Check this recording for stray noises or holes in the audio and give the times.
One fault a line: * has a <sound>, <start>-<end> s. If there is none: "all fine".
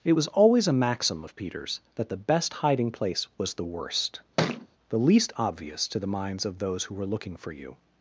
* has a thud, 4.4-4.7 s